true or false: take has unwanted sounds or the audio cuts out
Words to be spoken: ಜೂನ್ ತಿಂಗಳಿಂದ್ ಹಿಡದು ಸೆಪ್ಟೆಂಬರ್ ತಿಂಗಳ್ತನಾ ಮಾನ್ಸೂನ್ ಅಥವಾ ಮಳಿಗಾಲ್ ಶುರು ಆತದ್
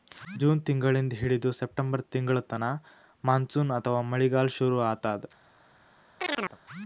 true